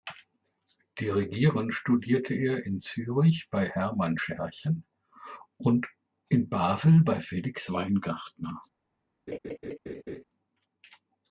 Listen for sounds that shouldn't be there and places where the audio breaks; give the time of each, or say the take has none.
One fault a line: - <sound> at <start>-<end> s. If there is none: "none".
- laugh at 9.3-10.2 s